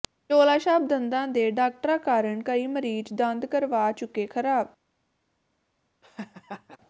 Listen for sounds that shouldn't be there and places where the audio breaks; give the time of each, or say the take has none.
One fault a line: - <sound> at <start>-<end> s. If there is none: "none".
- laugh at 6.0-6.8 s